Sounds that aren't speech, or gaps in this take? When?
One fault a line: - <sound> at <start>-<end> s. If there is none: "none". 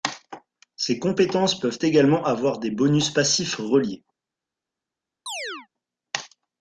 - chirp at 5.3-5.7 s